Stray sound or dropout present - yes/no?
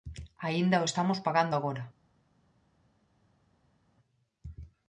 no